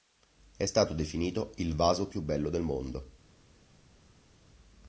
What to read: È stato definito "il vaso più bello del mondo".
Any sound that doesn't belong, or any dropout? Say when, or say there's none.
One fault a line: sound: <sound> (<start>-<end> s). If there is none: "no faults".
no faults